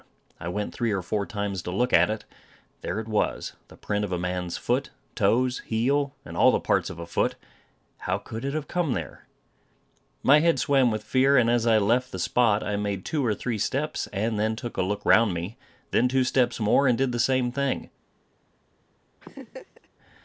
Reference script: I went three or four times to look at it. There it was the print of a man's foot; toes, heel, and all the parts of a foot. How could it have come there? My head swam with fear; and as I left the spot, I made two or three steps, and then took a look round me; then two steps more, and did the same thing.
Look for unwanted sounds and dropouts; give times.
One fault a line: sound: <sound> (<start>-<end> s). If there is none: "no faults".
sound: laugh (19.2-19.9 s)